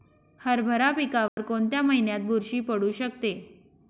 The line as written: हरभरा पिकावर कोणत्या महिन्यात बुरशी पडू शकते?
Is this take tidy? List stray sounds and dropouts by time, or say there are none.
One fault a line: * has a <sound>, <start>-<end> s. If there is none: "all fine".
* has a dropout, 1.3-1.4 s